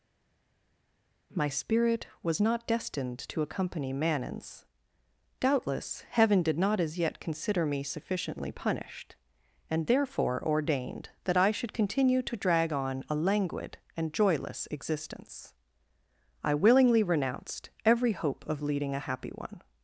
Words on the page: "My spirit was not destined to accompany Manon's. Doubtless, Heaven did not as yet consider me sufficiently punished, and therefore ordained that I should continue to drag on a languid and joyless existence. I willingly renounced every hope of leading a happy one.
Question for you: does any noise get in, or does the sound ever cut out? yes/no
no